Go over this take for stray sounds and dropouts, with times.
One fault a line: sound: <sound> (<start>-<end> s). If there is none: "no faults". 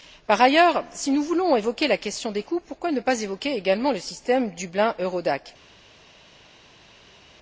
no faults